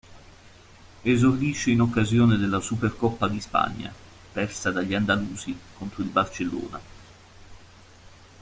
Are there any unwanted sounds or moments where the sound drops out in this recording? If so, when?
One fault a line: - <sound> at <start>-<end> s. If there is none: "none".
none